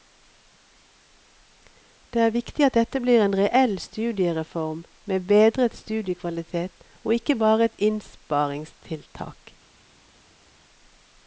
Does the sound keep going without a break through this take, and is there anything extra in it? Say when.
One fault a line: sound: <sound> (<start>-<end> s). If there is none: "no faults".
no faults